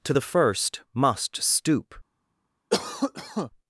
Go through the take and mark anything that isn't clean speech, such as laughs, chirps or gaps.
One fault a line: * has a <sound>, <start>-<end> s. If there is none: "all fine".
* has a cough, 2.7-3.5 s